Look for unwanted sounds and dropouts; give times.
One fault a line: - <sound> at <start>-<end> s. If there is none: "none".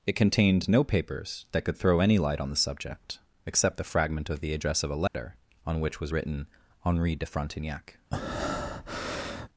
- dropout at 5.1-5.1 s
- breath at 8.1-9.5 s